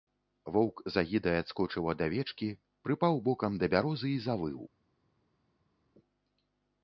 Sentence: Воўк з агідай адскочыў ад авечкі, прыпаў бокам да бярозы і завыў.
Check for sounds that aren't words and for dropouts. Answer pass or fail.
pass